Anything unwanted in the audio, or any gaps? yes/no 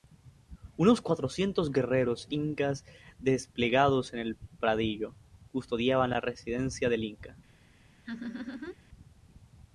yes